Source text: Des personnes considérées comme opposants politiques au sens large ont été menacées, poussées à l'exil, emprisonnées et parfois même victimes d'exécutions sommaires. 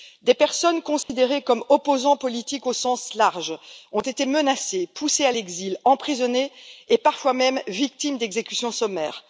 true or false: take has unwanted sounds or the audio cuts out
true